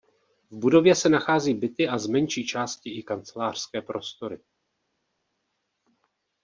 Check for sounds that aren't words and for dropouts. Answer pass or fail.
pass